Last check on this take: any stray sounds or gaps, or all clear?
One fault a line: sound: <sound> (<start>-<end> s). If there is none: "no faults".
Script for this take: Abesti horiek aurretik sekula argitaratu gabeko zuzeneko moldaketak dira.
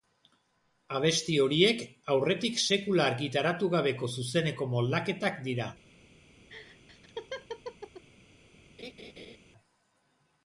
sound: laugh (6.5-8.0 s)
sound: laugh (8.8-9.4 s)